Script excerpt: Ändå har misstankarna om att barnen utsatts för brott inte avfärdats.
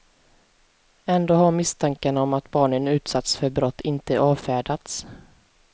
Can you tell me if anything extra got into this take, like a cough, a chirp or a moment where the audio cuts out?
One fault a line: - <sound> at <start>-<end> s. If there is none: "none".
none